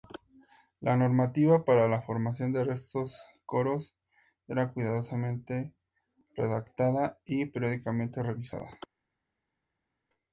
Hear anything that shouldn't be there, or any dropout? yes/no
no